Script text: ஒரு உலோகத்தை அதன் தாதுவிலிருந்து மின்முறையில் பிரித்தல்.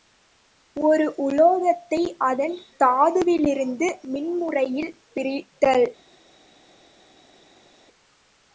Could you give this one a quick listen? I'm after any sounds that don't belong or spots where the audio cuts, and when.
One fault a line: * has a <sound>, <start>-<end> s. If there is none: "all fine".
all fine